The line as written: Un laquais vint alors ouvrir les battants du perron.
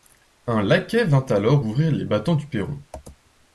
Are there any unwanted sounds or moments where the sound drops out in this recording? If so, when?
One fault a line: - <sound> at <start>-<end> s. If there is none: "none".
none